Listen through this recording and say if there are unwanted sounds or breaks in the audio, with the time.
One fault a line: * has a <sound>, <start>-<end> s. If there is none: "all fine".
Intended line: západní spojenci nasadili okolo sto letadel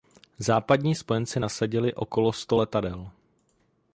all fine